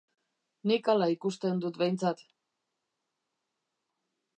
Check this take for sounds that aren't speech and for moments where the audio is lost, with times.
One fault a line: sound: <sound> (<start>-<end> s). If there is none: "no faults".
no faults